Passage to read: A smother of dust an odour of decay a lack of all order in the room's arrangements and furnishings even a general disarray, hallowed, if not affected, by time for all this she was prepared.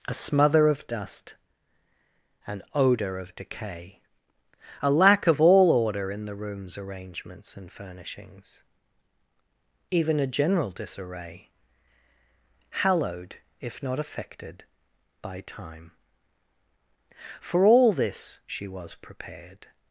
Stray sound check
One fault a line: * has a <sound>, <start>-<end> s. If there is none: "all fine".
all fine